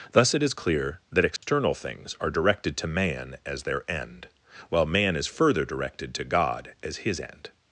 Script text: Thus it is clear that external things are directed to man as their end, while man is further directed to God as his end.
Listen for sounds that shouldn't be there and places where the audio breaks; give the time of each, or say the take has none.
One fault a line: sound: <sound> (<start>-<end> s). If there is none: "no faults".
sound: dropout (1.4-1.4 s)